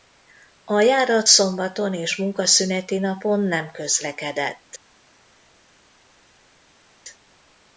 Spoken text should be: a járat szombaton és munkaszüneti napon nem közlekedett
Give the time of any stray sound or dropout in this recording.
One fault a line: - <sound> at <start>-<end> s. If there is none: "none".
none